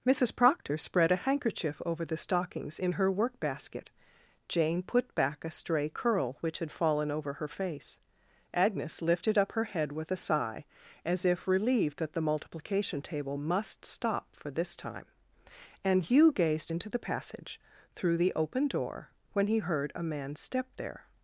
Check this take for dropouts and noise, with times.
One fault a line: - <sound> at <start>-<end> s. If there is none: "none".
none